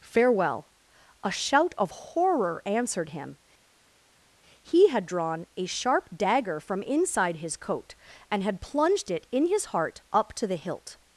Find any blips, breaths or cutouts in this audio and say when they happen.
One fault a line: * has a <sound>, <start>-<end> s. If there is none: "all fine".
all fine